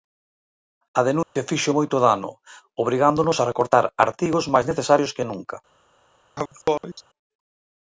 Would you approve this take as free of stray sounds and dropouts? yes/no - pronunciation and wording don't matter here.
no